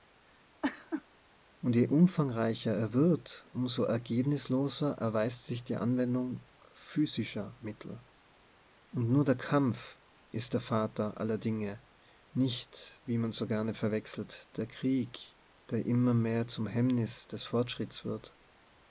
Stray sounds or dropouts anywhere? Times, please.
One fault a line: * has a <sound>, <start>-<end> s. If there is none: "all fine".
* has a laugh, 0.6-1.0 s